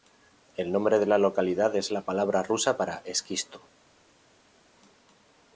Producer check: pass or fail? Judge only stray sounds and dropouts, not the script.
pass